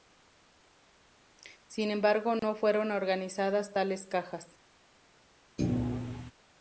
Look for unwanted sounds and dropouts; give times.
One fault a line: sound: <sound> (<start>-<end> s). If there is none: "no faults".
sound: dropout (2.4-2.4 s)
sound: thud (5.6-6.3 s)